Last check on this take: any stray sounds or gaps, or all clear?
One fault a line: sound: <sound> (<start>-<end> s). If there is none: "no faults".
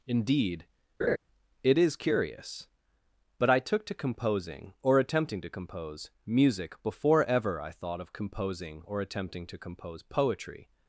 sound: laugh (1.0-1.2 s)